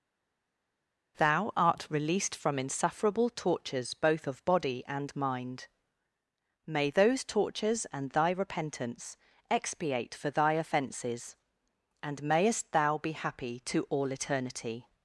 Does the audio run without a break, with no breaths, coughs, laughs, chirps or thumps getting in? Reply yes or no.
yes